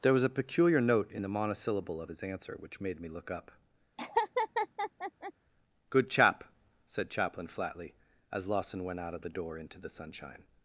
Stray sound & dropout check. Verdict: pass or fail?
fail